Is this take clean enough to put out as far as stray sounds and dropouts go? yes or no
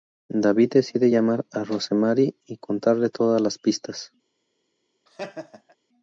no